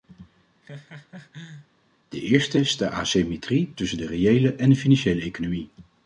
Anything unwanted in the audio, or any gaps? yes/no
yes